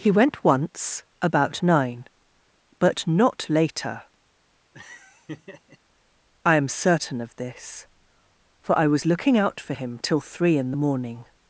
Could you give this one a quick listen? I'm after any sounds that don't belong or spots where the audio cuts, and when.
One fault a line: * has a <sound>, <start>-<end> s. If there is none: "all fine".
* has a laugh, 4.7-5.8 s